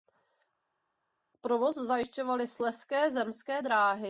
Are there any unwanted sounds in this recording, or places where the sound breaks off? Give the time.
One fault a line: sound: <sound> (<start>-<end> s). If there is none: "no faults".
no faults